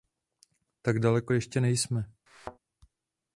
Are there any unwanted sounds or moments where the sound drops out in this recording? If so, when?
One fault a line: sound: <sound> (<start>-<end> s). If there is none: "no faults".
sound: thud (2.3-2.6 s)